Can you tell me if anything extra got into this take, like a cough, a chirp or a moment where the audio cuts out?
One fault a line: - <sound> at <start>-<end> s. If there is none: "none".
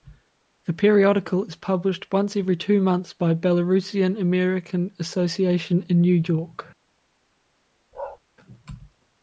- bark at 7.9-8.2 s